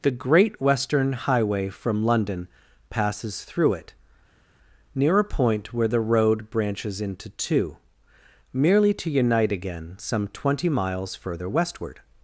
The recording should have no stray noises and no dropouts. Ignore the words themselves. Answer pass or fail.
pass